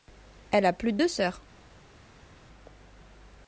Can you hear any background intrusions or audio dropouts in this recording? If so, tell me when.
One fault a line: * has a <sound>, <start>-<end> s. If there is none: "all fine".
all fine